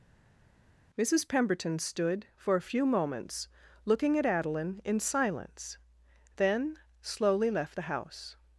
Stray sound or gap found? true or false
false